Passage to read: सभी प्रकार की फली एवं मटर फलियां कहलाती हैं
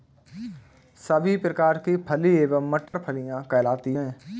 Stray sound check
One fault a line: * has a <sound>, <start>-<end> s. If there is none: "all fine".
* has a dropout, 2.9-2.9 s